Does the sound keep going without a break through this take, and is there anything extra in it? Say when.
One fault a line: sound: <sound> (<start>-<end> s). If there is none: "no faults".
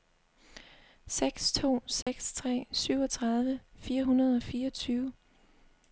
sound: dropout (2.0-2.1 s)